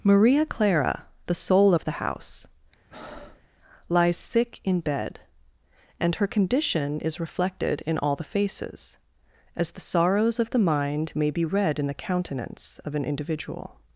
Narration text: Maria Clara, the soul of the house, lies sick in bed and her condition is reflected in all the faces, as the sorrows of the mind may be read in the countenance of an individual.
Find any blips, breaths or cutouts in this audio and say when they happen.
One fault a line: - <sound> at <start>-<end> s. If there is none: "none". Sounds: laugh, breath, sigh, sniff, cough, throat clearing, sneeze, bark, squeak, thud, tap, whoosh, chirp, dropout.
- breath at 2.9-3.5 s